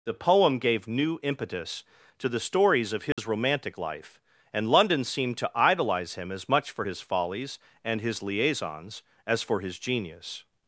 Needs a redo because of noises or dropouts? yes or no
yes